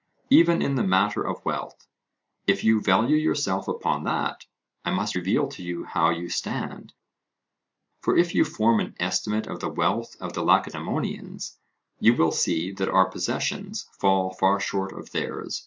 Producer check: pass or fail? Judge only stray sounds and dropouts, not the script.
pass